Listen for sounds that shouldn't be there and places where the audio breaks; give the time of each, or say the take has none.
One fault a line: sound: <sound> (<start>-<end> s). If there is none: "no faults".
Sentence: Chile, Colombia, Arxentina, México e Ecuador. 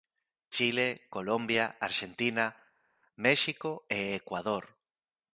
no faults